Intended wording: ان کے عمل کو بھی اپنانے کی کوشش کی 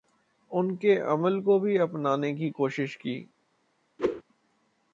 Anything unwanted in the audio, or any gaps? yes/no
yes